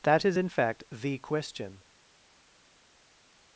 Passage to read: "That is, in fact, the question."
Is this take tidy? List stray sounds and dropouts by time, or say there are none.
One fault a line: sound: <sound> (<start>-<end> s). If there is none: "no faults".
no faults